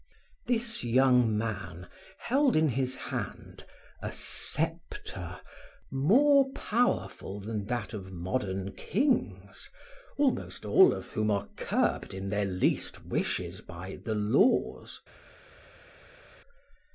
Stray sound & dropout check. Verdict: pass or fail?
pass